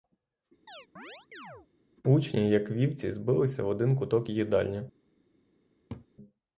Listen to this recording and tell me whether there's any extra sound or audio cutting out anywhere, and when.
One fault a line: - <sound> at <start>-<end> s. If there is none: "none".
- chirp at 0.7-1.7 s
- laugh at 5.9-6.1 s